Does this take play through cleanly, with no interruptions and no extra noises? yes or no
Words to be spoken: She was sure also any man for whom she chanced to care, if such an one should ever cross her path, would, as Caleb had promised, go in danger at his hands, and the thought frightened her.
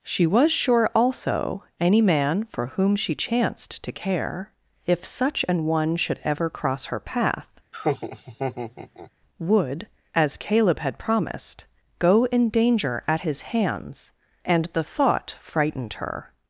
no